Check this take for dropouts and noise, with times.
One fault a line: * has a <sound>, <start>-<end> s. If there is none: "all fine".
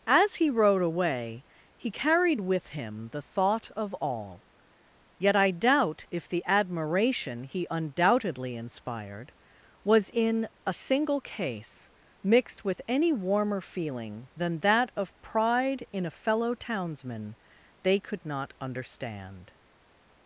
all fine